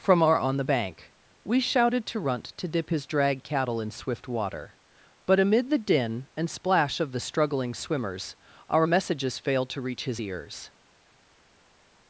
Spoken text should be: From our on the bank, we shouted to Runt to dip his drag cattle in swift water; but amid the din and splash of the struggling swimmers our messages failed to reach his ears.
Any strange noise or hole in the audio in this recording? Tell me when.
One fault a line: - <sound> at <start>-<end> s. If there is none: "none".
none